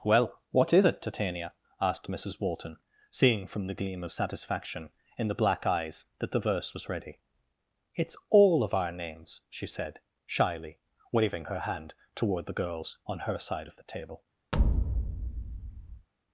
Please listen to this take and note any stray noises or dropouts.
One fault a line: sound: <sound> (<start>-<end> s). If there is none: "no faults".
sound: thud (14.5-16.1 s)